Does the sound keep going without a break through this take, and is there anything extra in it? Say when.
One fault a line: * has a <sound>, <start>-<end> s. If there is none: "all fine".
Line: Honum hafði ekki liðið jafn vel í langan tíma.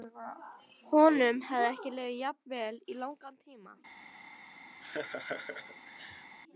* has a laugh, 4.8-6.3 s